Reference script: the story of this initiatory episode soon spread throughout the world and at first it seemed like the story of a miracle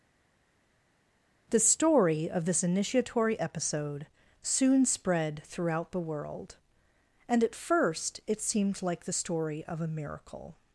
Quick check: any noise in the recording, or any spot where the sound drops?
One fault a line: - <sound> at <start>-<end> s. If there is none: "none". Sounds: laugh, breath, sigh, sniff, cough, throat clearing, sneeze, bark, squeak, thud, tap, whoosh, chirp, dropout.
none